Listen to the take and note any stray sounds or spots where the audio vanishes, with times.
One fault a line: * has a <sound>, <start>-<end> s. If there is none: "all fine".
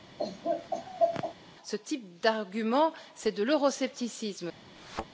* has a laugh, 0.2-1.3 s
* has a thud, 4.8-5.1 s